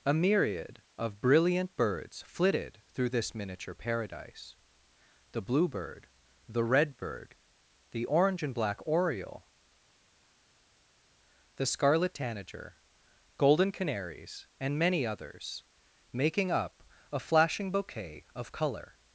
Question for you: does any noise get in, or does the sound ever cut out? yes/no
no